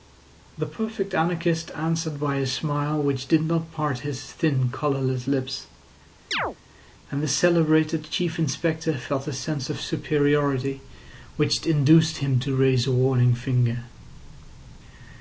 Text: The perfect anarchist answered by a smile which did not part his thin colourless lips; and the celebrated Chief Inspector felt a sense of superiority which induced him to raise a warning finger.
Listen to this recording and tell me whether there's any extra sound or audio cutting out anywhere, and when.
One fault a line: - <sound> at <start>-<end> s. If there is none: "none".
- chirp at 6.3-6.6 s